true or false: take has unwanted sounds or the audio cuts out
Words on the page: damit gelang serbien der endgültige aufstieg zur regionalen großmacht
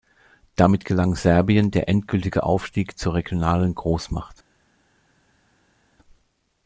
false